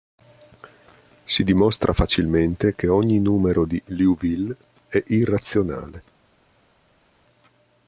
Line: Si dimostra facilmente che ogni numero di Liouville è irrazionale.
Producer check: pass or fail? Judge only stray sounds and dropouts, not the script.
pass